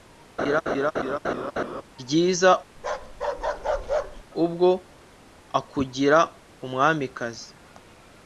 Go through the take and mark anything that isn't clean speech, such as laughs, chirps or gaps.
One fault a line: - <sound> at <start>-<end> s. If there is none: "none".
- laugh at 0.4-1.8 s
- bark at 2.8-4.2 s